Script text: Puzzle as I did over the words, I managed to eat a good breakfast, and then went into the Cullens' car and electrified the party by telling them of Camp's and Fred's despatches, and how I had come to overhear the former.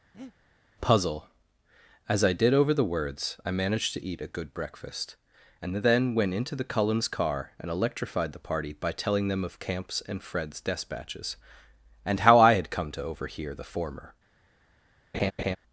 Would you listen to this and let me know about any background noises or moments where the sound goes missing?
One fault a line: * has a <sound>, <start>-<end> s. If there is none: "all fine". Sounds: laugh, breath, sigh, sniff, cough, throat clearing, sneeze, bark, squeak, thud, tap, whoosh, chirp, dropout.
* has a breath, 0.1-0.3 s
* has a laugh, 15.1-15.6 s